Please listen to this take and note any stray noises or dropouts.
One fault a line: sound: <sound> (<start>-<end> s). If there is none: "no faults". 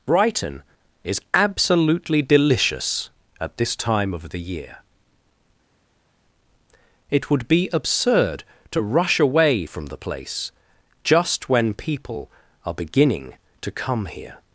no faults